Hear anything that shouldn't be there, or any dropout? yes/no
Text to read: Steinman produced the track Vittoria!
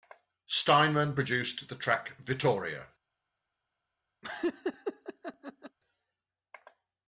yes